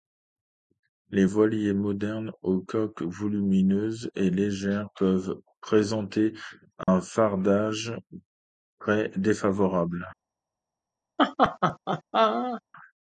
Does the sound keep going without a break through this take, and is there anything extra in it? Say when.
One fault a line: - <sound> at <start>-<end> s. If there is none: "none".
- dropout at 6.8-6.9 s
- laugh at 11.2-12.6 s